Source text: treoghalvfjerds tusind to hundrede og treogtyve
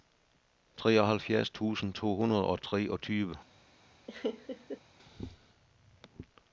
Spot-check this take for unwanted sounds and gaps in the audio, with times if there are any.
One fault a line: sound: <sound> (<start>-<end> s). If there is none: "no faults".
sound: laugh (4.1-4.8 s)